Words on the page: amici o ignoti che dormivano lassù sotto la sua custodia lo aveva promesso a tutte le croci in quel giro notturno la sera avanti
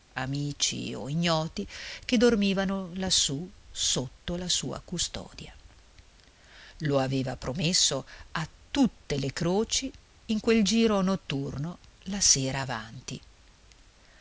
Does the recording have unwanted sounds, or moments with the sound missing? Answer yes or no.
no